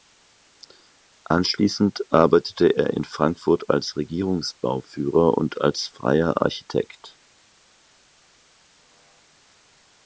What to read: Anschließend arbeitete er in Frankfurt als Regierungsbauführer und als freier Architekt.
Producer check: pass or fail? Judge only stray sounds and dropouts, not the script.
pass